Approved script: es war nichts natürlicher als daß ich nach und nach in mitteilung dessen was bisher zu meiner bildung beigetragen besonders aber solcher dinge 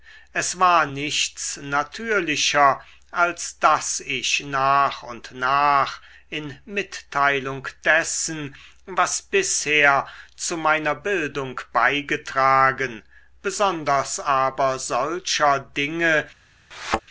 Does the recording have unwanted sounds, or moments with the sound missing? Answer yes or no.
yes